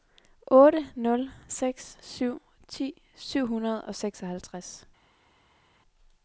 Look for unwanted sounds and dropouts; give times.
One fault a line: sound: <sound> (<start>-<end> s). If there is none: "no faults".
no faults